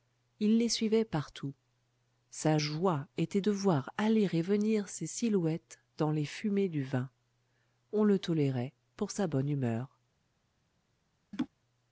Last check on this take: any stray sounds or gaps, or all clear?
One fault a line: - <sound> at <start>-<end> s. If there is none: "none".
- laugh at 11.3-11.5 s